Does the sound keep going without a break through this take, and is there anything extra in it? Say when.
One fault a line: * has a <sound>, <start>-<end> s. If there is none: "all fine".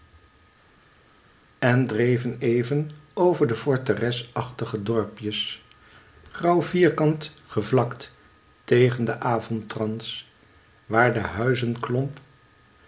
all fine